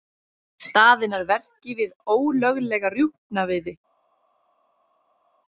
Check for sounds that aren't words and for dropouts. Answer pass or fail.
pass